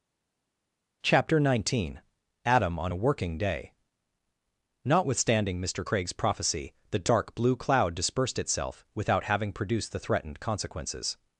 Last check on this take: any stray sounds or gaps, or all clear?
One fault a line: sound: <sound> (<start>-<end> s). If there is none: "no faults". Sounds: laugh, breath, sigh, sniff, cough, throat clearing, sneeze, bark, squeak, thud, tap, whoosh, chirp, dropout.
no faults